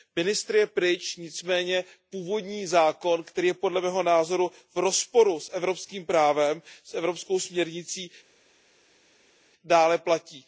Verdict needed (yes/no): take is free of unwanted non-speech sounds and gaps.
yes